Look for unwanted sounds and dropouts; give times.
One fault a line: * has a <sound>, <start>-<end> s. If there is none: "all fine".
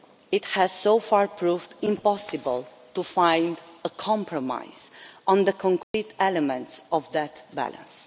* has a dropout, 5.8-5.9 s